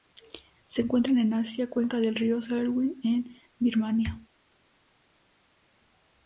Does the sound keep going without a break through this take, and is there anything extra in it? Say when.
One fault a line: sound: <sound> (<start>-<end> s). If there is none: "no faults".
no faults